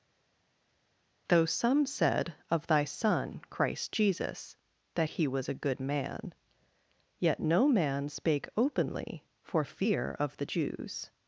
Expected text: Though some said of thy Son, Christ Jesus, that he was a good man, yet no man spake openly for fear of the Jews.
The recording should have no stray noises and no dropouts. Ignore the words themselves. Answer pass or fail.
pass